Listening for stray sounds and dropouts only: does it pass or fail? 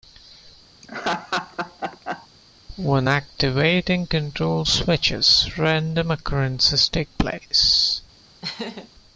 fail